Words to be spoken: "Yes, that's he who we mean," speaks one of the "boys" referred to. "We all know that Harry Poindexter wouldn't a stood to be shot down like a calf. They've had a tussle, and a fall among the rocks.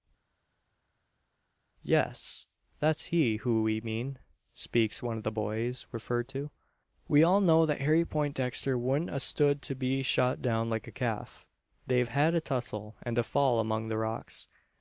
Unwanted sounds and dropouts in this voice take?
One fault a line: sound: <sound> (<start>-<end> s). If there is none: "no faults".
no faults